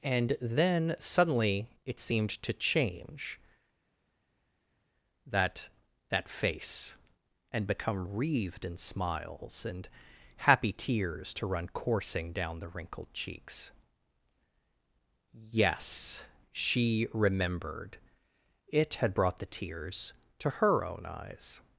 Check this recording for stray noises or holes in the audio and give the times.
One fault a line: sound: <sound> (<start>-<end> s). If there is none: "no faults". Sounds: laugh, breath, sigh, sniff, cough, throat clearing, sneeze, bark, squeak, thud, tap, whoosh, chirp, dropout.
no faults